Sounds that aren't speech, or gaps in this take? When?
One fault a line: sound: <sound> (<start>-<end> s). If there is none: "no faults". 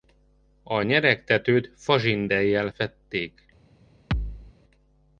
sound: thud (4.1-4.5 s)